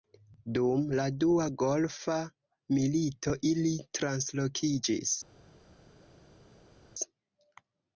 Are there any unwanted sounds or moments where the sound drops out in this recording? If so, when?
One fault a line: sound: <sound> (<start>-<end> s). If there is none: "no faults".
no faults